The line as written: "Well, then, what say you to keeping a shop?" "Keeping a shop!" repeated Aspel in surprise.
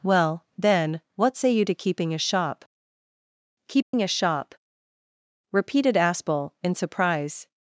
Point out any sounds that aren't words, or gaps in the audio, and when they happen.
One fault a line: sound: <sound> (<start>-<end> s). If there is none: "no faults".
sound: dropout (3.8-3.9 s)